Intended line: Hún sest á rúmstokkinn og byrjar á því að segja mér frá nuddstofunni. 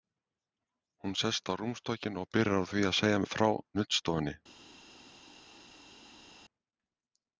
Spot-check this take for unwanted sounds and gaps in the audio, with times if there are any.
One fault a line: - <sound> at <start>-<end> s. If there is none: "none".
none